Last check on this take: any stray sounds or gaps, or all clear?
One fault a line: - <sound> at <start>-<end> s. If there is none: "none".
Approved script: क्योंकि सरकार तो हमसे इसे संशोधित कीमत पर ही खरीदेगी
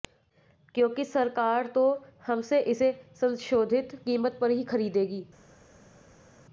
none